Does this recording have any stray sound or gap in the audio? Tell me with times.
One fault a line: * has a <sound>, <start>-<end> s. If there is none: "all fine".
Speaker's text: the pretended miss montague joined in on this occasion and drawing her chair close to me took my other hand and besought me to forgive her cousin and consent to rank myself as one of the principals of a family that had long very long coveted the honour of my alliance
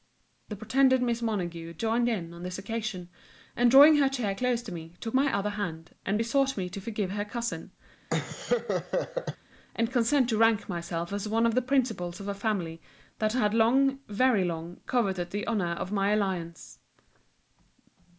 * has a laugh, 8.1-9.4 s